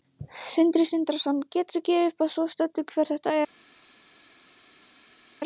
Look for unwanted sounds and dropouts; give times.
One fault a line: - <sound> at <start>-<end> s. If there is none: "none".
none